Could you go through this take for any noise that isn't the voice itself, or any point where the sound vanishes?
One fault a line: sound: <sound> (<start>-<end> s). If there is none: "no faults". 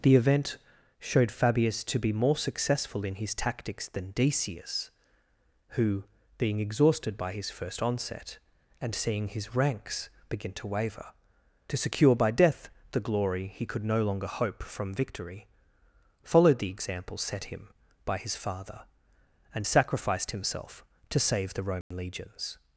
sound: dropout (21.8-21.9 s)